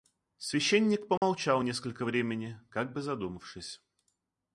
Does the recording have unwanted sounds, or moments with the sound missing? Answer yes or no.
yes